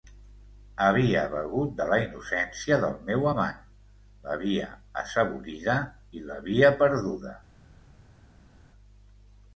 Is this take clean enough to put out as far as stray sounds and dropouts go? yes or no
yes